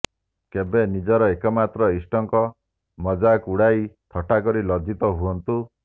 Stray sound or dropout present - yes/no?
no